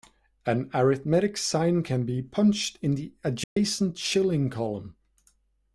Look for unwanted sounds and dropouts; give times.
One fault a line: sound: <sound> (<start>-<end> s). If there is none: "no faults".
sound: dropout (3.4-3.6 s)